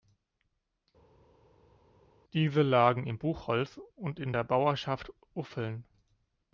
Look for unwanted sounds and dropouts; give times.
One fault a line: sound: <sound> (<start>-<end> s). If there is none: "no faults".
no faults